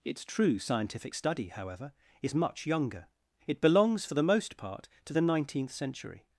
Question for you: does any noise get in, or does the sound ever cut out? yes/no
no